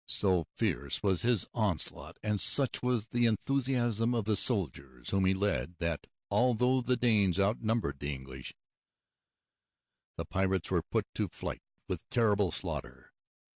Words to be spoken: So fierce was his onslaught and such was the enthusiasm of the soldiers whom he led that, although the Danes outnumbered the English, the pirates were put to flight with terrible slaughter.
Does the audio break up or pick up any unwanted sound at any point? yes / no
no